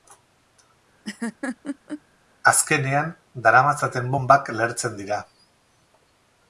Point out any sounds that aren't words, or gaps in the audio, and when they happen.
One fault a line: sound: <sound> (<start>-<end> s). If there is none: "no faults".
sound: laugh (1.0-2.0 s)